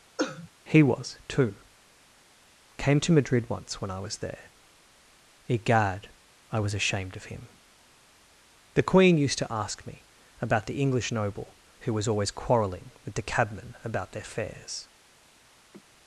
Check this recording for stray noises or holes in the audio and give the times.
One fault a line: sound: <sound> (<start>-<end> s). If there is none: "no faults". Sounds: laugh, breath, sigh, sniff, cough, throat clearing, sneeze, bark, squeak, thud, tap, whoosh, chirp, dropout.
sound: cough (0.2-0.5 s)
sound: sigh (15.7-15.8 s)